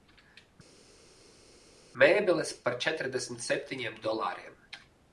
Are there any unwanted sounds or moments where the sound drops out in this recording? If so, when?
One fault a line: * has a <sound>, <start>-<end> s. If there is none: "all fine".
all fine